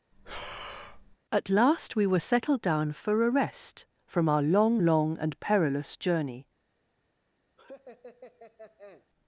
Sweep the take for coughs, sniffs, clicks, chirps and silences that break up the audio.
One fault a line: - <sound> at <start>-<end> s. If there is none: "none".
- breath at 0.1-1.2 s
- laugh at 7.6-9.1 s